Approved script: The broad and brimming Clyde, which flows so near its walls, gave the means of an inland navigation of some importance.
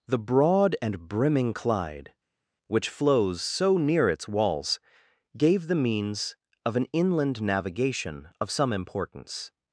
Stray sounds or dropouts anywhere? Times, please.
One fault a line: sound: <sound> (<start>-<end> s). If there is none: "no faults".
no faults